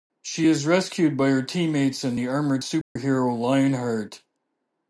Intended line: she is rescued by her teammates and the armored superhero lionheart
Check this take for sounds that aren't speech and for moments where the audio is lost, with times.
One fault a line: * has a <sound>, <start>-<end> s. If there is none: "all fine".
* has a dropout, 2.8-3.0 s